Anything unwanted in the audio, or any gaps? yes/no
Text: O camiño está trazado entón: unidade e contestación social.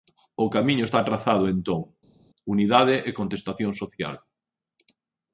no